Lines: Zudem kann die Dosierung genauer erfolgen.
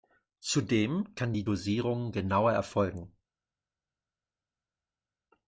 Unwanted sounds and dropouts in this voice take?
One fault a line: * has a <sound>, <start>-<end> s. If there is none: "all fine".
all fine